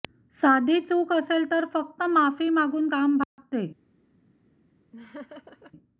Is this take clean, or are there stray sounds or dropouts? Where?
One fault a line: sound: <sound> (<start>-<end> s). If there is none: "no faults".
sound: dropout (3.2-3.4 s)
sound: laugh (4.9-5.7 s)